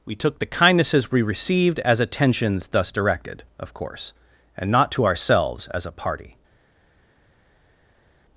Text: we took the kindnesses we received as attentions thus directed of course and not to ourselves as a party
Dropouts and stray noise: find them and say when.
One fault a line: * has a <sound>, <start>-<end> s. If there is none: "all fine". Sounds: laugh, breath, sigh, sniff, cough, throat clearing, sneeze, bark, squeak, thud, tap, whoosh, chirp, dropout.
all fine